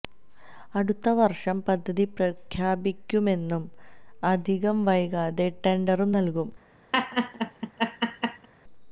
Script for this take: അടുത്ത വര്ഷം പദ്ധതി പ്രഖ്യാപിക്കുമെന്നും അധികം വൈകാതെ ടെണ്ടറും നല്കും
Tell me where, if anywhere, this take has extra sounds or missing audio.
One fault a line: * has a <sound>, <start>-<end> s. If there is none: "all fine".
* has a laugh, 6.9-8.5 s